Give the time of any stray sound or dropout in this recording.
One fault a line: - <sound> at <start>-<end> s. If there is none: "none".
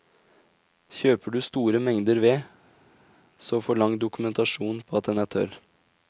none